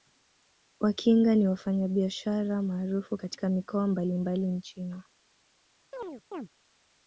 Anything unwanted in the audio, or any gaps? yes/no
yes